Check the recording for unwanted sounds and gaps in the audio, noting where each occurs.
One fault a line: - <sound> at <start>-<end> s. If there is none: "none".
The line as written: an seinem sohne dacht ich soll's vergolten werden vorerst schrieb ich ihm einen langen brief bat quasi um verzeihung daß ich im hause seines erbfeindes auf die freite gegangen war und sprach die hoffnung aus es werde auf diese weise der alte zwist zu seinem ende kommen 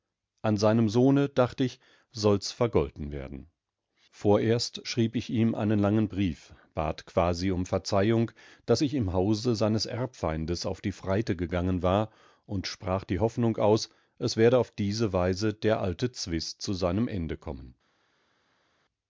none